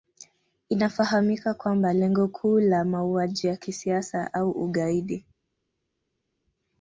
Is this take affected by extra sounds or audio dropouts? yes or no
no